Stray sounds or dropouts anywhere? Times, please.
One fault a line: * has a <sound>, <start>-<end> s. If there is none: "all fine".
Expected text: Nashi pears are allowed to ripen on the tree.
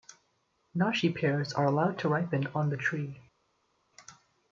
all fine